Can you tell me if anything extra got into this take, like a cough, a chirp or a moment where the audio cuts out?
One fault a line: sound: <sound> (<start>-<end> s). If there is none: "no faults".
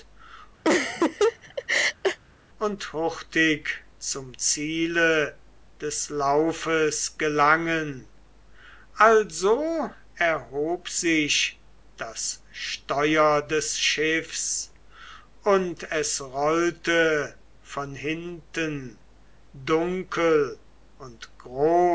sound: laugh (0.6-2.2 s)